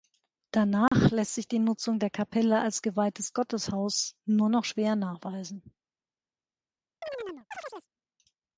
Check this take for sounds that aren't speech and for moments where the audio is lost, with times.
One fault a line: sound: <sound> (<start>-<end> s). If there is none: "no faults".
sound: dropout (0.9-0.9 s)
sound: chirp (7.0-7.9 s)